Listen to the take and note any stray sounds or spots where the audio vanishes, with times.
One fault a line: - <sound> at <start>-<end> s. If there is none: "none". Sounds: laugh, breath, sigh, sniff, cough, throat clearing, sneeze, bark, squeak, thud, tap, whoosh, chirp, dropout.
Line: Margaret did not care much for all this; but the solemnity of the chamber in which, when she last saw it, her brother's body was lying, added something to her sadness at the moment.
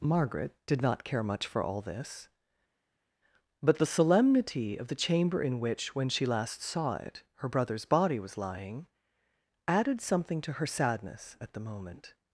none